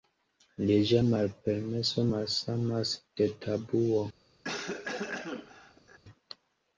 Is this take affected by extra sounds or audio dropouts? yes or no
yes